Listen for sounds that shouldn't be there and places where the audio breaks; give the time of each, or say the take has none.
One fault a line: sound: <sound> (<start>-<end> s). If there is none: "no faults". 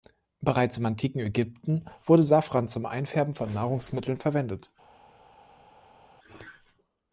no faults